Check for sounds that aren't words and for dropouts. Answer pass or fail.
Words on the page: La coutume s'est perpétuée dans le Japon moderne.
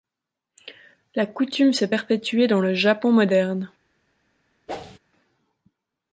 fail